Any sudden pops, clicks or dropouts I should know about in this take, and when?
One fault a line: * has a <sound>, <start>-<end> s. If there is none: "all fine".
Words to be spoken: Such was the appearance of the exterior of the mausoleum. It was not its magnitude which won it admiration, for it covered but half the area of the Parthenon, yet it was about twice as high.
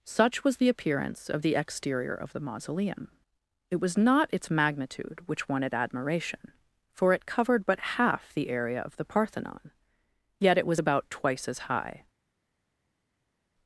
all fine